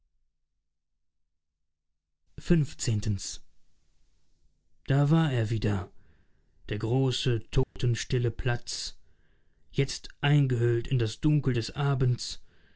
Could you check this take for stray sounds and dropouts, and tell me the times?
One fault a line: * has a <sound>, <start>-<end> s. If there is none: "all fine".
* has a dropout, 7.6-7.8 s